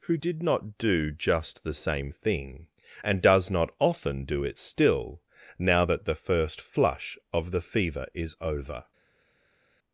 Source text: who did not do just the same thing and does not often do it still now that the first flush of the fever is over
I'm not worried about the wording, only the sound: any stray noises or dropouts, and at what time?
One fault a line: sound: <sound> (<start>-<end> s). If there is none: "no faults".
no faults